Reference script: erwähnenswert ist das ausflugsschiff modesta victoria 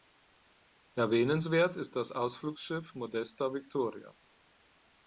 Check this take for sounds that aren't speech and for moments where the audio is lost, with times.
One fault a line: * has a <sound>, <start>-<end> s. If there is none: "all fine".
all fine